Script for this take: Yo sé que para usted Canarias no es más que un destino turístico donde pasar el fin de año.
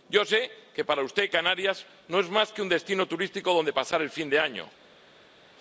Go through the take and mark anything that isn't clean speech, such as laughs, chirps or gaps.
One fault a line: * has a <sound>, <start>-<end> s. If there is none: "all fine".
all fine